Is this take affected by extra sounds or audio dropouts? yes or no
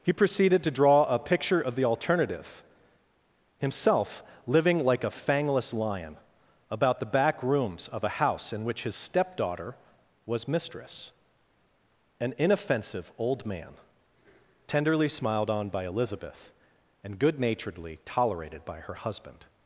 no